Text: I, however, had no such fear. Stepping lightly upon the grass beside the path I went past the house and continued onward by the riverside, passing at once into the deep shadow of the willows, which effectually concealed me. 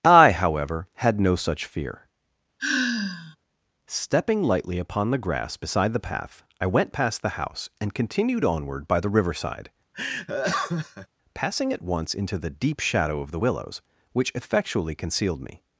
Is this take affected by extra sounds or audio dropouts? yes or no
yes